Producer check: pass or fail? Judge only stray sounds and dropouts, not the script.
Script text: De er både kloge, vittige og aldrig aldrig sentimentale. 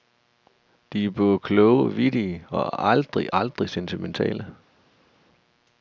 pass